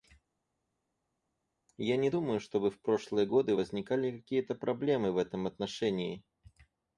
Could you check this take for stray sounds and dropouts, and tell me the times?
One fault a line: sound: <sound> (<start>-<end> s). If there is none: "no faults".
no faults